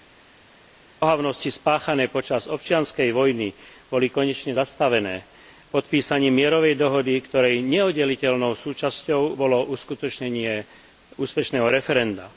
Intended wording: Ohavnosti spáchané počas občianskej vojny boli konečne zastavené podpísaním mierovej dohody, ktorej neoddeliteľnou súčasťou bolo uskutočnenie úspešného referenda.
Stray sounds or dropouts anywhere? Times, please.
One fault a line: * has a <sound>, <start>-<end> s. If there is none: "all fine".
all fine